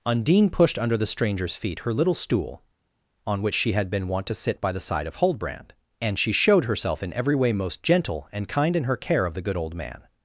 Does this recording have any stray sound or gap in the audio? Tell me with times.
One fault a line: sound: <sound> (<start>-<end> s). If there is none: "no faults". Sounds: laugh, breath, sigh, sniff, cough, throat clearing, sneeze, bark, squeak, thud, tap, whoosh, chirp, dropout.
no faults